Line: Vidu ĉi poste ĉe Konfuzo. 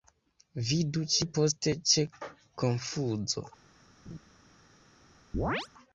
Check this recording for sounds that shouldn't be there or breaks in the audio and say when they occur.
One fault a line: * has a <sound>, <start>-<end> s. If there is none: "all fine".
* has a laugh, 4.1-4.2 s
* has a chirp, 5.3-5.7 s